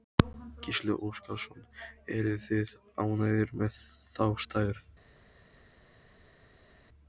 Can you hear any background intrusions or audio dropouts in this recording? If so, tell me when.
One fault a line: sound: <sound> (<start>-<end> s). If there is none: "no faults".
no faults